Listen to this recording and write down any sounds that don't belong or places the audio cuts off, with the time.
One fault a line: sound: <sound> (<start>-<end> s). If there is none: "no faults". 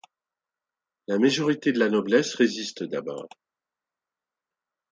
no faults